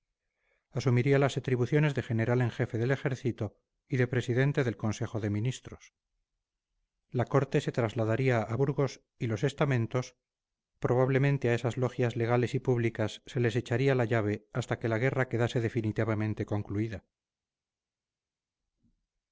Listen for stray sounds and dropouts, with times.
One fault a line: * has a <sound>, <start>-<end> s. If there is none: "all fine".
all fine